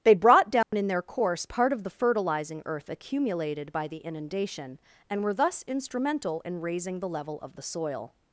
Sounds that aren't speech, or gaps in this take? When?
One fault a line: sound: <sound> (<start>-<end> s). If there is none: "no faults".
sound: dropout (0.6-0.7 s)